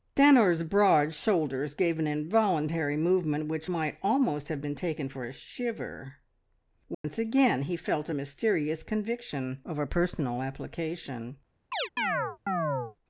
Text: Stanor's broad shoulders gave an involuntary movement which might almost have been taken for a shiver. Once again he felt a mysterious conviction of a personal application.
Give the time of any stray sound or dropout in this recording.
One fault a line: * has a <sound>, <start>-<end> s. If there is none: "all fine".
* has a dropout, 6.9-7.0 s
* has a chirp, 11.7-13.0 s